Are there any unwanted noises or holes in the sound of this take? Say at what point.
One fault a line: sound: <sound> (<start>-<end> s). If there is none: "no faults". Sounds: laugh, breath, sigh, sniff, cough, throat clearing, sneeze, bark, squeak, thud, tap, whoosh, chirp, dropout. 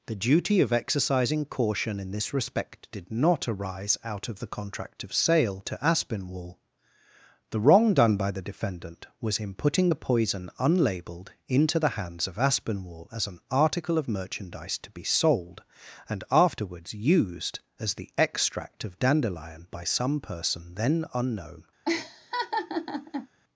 sound: laugh (21.9-23.3 s)